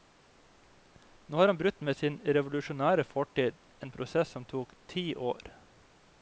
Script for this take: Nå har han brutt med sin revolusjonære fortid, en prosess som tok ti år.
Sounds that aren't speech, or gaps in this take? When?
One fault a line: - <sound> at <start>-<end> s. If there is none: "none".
none